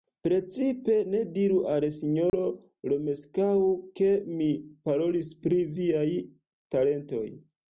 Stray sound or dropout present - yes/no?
yes